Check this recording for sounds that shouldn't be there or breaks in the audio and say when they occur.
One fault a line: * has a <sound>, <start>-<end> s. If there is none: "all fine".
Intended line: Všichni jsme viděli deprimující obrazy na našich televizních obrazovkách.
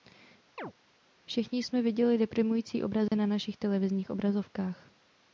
* has a chirp, 0.6-0.7 s
* has a dropout, 3.1-3.1 s